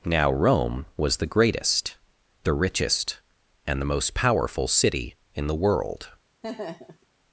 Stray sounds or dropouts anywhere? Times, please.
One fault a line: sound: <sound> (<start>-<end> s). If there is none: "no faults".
sound: laugh (6.4-7.1 s)